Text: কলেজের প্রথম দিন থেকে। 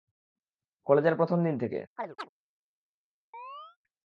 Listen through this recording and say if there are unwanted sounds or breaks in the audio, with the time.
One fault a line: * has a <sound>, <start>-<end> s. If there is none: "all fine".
* has a chirp, 2.0-2.3 s
* has a chirp, 3.3-3.8 s